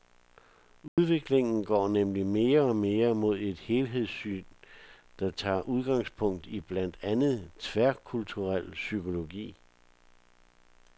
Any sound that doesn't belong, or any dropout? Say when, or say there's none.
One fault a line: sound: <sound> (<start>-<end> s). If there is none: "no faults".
sound: dropout (0.9-1.0 s)